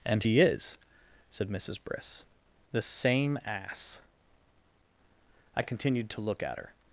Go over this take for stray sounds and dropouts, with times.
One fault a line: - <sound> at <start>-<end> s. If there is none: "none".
none